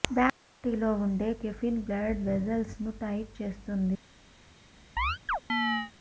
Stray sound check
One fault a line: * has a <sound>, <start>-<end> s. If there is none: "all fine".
* has a chirp, 5.0-5.9 s